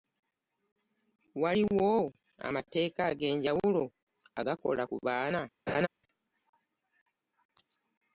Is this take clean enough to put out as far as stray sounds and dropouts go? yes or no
no